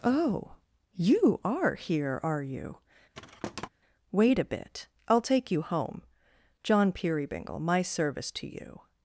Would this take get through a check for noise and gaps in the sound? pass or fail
fail